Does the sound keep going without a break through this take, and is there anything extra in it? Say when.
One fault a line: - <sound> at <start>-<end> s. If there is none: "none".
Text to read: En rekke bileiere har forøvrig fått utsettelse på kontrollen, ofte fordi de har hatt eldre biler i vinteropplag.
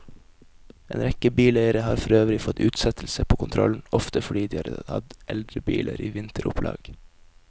none